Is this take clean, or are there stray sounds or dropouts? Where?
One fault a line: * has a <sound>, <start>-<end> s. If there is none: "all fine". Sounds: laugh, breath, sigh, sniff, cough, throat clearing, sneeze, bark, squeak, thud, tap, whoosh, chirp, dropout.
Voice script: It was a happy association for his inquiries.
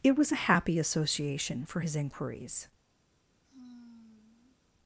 * has a sigh, 3.4-4.6 s